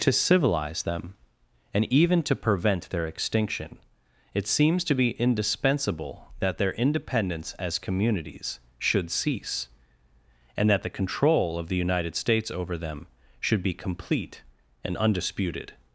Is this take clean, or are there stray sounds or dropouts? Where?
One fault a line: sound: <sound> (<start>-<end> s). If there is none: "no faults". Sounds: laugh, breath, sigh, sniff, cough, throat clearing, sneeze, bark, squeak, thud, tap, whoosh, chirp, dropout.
no faults